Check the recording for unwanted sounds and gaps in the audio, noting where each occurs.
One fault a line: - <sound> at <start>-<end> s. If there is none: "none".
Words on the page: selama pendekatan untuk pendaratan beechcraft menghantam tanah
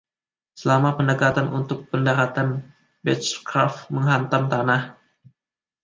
none